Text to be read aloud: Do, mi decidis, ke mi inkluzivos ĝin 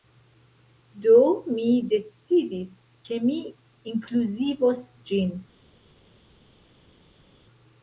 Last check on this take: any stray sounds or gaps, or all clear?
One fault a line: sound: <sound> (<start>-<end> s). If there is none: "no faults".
no faults